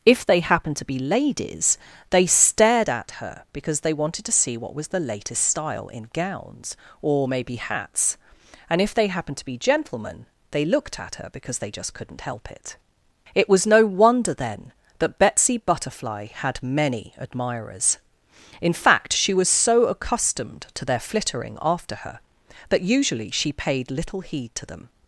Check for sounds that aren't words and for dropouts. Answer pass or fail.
pass